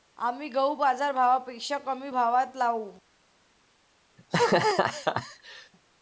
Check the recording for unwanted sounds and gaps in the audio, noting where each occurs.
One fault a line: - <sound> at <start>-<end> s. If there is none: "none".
- laugh at 4.2-5.7 s